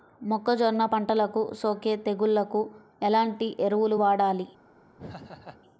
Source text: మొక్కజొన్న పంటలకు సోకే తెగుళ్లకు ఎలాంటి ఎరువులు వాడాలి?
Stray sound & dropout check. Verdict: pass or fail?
fail